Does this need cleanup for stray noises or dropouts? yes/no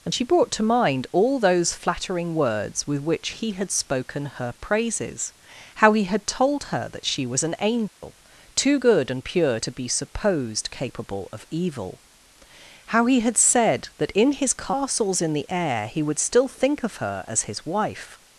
yes